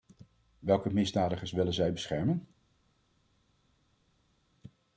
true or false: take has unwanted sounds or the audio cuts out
false